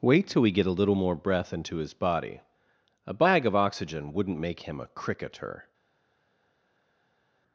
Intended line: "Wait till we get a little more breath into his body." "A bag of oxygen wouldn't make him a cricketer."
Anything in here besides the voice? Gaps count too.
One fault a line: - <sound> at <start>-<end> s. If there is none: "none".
none